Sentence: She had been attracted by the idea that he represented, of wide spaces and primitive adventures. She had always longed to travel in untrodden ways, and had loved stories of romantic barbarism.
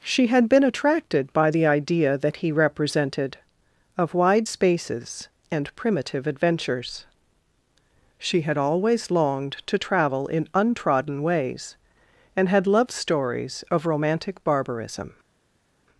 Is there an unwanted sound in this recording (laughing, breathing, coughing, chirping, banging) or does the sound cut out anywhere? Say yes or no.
no